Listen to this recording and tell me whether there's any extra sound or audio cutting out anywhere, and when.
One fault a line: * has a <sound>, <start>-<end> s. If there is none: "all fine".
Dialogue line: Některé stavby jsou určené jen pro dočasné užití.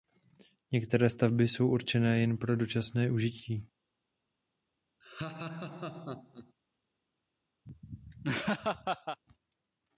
* has a laugh, 5.0-6.5 s
* has a laugh, 7.7-9.2 s